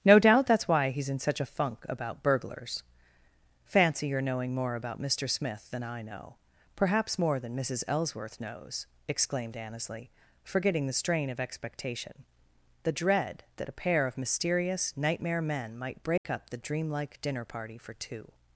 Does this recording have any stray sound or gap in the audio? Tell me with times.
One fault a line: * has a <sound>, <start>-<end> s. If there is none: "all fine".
* has a dropout, 16.2-16.2 s